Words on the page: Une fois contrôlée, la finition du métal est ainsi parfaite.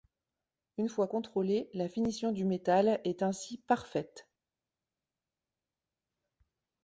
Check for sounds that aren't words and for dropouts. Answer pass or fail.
pass